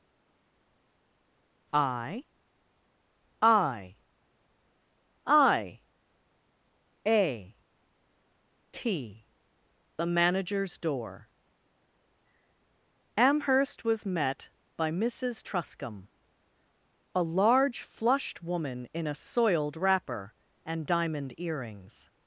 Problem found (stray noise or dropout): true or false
false